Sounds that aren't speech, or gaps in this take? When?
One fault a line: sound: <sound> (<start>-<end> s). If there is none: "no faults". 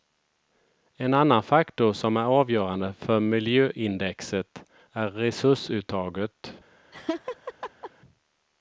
sound: laugh (6.9-7.9 s)